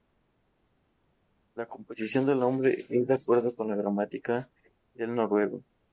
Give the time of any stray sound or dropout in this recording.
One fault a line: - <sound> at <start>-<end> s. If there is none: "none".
none